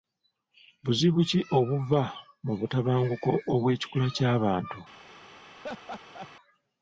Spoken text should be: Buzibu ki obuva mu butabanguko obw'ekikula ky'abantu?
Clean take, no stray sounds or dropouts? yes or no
no